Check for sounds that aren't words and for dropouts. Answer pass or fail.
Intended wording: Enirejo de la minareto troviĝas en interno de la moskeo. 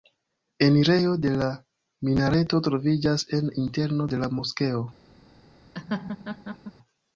fail